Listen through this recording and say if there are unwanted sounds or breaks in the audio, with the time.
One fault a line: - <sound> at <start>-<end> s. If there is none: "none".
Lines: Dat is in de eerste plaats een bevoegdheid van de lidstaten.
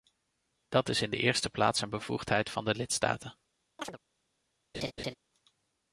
- chirp at 3.8-4.0 s
- laugh at 4.7-5.2 s